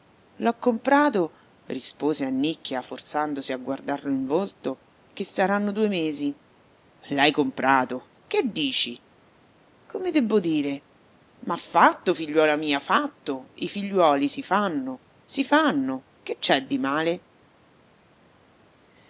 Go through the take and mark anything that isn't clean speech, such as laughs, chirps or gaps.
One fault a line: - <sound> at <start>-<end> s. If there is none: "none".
none